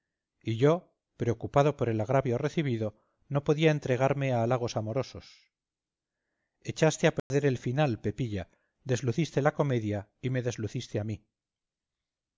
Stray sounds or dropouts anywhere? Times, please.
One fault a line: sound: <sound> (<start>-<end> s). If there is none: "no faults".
sound: dropout (7.2-7.3 s)